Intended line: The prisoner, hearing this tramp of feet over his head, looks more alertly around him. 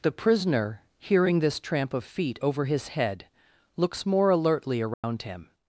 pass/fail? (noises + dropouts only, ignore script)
fail